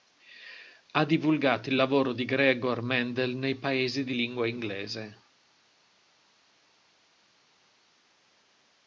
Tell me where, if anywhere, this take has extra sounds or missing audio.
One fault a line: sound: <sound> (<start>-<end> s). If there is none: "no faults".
no faults